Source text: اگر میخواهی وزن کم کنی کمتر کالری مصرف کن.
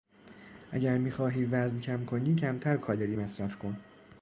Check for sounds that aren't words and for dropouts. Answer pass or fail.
pass